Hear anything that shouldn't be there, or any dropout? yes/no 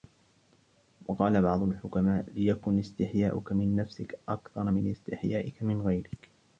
no